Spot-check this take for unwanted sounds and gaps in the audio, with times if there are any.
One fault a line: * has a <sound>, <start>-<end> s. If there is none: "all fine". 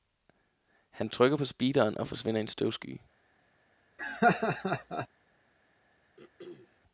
* has a laugh, 4.0-5.1 s
* has a throat clearing, 6.2-6.8 s